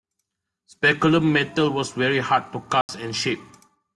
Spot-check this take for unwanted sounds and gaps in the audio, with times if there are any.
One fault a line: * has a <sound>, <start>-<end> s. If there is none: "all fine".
* has a dropout, 2.8-2.9 s